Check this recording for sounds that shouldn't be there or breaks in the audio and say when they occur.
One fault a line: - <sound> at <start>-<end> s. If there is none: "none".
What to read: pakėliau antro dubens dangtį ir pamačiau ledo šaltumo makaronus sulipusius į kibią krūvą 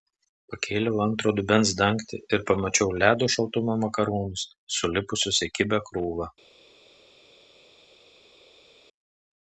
none